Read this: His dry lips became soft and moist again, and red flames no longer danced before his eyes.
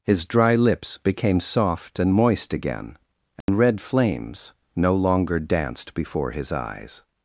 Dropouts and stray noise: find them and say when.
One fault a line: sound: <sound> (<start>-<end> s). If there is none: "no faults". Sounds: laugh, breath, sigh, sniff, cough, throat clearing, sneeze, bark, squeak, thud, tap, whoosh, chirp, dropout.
sound: dropout (3.4-3.5 s)